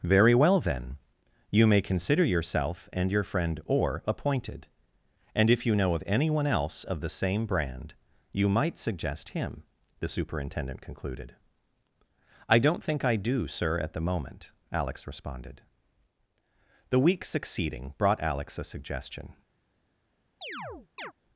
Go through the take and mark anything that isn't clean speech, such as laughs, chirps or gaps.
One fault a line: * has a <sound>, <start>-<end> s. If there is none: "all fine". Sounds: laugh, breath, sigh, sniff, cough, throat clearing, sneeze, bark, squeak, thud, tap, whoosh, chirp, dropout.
* has a chirp, 20.4-21.1 s